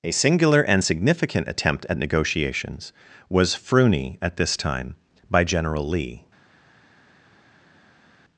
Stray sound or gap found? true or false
false